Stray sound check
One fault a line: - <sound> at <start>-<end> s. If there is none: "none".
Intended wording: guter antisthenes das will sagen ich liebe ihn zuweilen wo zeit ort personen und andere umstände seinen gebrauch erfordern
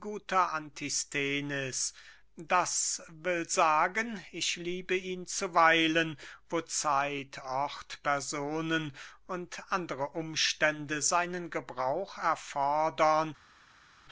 none